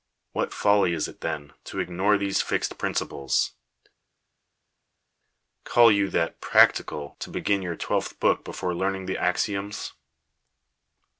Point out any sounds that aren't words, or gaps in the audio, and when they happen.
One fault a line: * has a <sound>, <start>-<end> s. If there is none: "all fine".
all fine